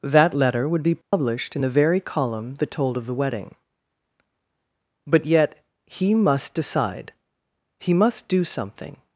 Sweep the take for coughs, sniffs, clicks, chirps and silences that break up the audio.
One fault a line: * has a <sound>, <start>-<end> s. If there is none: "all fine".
* has a dropout, 1.0-1.1 s